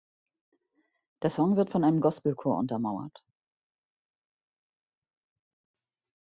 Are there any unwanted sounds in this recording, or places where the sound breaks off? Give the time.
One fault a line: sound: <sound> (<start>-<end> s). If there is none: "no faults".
no faults